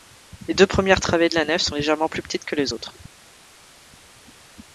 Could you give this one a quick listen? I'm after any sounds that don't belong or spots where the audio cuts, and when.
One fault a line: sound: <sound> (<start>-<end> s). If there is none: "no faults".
no faults